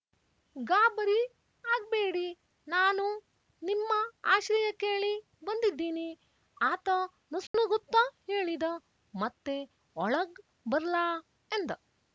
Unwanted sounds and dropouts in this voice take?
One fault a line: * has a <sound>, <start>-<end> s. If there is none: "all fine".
* has a dropout, 7.5-7.5 s